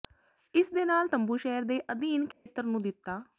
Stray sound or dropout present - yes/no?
yes